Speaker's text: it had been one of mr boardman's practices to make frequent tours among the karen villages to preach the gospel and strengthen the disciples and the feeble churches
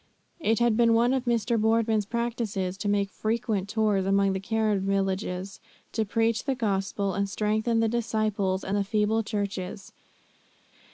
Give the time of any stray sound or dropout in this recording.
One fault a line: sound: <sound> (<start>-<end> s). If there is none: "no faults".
no faults